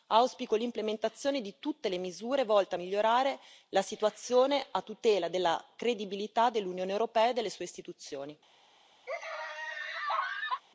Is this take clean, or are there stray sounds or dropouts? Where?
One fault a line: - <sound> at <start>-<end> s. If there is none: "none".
- laugh at 9.1-10.6 s